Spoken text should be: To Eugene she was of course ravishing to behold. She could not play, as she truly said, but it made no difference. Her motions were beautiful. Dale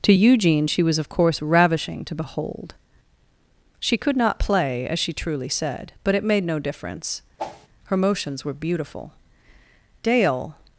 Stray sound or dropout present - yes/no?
yes